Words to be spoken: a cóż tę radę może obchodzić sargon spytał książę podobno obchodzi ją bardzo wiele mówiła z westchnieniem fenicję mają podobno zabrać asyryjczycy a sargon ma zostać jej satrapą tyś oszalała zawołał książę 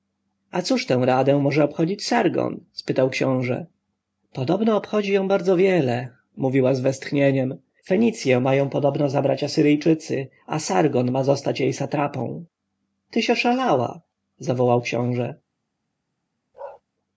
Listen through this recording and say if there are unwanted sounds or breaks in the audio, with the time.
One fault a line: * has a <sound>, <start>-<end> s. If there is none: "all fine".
* has a bark, 16.5-16.8 s